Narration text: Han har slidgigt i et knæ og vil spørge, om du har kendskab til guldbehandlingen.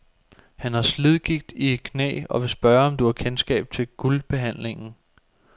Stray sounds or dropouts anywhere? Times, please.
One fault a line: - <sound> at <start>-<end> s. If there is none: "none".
none